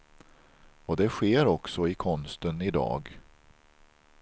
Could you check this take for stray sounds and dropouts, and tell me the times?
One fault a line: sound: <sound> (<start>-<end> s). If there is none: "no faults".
no faults